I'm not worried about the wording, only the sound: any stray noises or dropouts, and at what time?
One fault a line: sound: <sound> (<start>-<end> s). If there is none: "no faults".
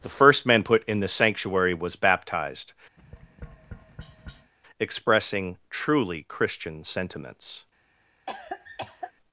sound: tap (3.0-4.5 s)
sound: cough (8.3-9.1 s)